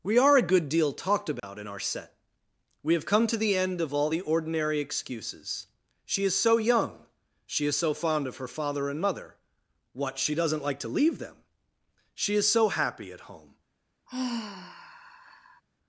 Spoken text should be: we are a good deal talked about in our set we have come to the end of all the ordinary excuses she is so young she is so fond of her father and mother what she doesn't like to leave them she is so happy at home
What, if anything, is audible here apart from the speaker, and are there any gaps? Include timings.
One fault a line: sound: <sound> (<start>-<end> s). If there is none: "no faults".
sound: dropout (1.4-1.4 s)
sound: sigh (14.1-15.6 s)